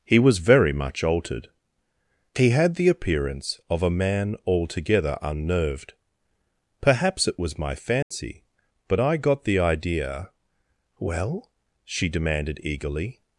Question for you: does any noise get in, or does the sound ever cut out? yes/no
yes